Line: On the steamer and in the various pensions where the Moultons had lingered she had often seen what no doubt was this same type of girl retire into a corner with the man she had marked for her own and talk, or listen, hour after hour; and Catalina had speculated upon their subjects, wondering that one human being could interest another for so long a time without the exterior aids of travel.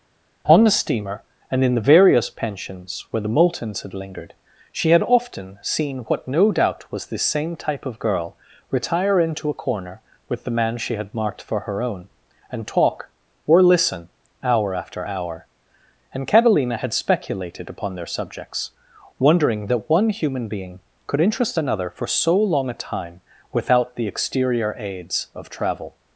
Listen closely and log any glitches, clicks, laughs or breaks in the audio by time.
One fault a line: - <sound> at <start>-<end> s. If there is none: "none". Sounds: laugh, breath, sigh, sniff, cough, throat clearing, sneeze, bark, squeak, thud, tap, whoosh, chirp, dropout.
none